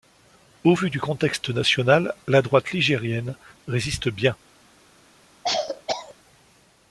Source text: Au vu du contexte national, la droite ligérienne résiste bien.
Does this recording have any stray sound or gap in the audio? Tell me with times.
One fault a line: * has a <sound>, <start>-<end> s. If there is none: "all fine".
* has a cough, 5.4-6.1 s